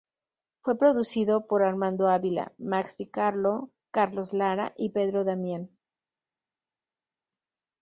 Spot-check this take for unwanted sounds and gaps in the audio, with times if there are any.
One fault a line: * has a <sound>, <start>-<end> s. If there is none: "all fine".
all fine